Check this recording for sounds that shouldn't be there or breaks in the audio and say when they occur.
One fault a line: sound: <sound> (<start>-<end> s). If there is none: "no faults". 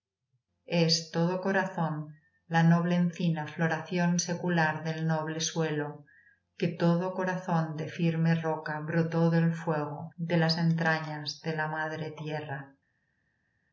no faults